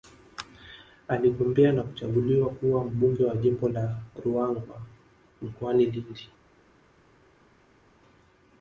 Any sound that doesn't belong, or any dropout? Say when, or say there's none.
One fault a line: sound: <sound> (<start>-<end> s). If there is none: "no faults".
no faults